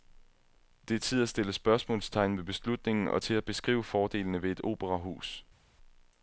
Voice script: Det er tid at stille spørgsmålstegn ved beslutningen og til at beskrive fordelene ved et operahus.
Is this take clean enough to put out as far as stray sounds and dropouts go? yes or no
yes